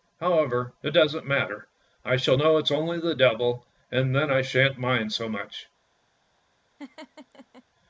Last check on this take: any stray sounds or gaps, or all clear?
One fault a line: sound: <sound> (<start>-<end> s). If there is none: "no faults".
sound: laugh (6.8-7.6 s)